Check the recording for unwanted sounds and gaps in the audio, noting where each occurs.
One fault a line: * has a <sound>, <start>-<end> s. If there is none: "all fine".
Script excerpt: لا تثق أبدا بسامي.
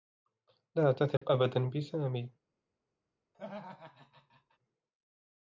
* has a dropout, 1.2-1.2 s
* has a laugh, 3.3-4.6 s